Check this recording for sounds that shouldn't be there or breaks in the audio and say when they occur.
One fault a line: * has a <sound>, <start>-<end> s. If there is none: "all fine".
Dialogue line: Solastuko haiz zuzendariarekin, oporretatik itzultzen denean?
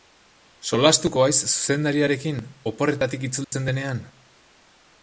* has a dropout, 3.4-3.5 s